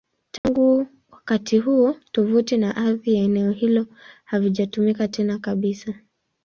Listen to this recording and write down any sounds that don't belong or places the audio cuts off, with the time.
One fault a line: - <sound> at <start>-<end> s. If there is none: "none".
- dropout at 0.4-0.4 s